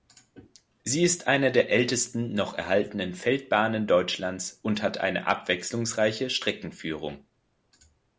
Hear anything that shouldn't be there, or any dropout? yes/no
no